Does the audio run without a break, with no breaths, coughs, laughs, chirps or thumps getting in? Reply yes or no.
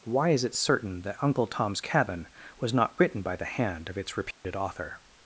no